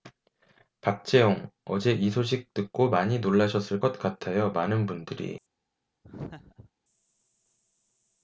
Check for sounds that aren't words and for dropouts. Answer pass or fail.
fail